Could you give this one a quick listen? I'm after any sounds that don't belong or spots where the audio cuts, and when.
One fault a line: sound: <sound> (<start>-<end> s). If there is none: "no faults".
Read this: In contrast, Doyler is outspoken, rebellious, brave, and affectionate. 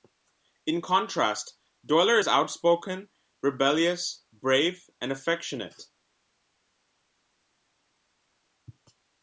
no faults